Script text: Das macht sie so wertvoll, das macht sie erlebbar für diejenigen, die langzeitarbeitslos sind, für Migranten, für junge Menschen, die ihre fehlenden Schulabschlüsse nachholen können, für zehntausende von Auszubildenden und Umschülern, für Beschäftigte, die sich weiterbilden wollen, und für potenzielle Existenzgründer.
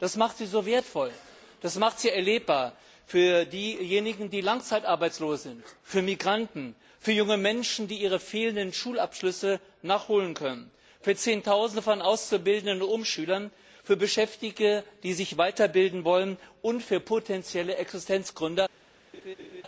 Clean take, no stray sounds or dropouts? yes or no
no